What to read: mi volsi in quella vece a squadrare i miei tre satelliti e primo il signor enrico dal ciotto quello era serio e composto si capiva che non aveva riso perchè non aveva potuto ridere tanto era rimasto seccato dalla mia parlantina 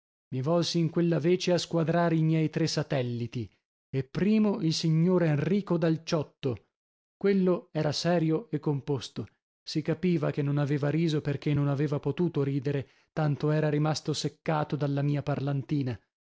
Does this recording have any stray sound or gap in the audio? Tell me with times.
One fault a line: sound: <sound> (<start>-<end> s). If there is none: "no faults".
no faults